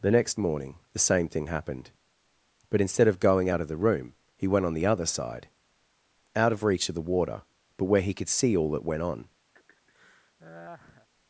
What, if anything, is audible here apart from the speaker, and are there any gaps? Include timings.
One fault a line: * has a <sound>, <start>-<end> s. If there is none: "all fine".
* has a laugh, 9.5-11.1 s